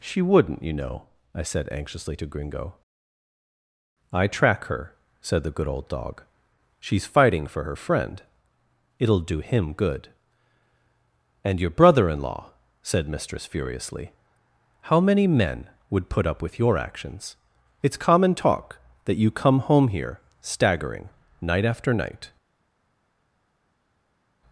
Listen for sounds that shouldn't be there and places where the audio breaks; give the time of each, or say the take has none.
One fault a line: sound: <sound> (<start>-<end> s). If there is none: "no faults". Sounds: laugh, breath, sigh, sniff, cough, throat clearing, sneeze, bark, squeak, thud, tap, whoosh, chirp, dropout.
no faults